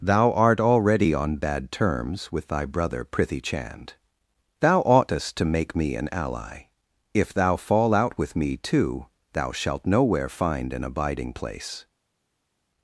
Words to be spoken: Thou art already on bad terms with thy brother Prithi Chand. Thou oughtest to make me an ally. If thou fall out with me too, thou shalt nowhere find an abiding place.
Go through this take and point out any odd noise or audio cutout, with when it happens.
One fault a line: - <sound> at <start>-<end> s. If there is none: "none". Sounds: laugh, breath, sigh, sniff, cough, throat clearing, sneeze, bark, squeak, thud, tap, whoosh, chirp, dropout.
none